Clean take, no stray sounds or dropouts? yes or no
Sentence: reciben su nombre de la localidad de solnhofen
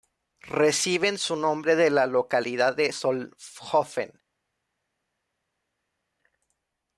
yes